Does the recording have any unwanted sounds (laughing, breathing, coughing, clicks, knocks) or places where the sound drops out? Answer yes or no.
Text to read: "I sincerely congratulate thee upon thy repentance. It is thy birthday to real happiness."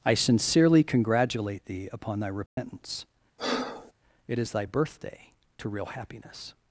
yes